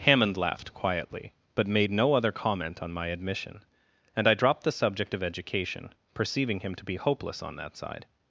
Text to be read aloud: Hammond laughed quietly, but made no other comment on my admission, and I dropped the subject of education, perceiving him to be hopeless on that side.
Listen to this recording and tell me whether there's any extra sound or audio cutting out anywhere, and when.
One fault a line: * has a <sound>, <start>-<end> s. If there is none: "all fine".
all fine